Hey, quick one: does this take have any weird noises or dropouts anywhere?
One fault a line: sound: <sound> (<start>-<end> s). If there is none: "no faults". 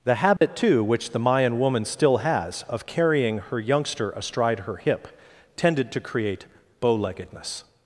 sound: dropout (0.4-0.4 s)